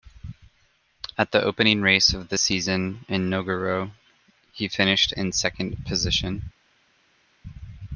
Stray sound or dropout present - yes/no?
no